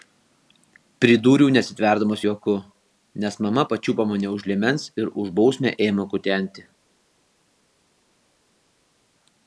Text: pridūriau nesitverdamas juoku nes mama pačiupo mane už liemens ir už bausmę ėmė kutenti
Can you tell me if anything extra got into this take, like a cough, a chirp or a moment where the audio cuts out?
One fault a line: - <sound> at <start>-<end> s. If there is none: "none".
none